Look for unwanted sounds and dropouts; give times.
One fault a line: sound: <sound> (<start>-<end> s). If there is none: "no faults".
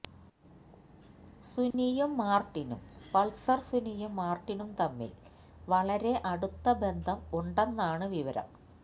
sound: dropout (1.7-1.7 s)